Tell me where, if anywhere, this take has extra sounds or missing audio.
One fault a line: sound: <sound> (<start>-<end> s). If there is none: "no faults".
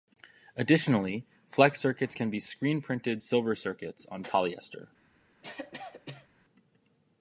sound: cough (5.4-6.3 s)